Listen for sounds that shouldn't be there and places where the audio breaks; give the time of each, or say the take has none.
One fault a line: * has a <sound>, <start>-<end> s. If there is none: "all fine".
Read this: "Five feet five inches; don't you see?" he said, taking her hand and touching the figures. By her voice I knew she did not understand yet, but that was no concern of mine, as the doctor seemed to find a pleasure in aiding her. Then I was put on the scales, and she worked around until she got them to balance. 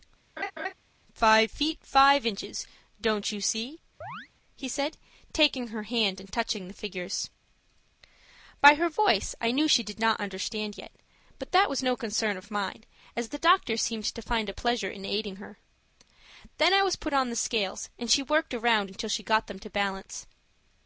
* has a laugh, 0.4-0.7 s
* has a chirp, 4.0-4.3 s